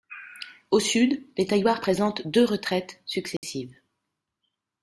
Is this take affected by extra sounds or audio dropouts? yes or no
yes